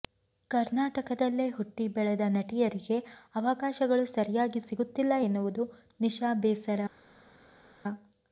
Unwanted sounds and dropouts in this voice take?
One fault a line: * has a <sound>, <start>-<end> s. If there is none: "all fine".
all fine